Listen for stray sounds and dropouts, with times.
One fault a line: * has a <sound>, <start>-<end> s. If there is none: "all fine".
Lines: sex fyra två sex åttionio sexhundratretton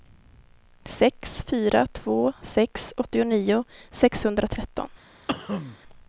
* has a cough, 5.3-5.8 s